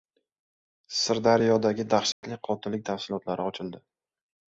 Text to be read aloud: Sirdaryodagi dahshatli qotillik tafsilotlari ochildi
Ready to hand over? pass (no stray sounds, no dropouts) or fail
fail